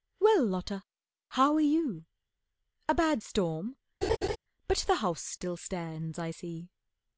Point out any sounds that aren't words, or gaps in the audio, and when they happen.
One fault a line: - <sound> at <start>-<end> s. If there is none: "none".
- laugh at 4.0-4.4 s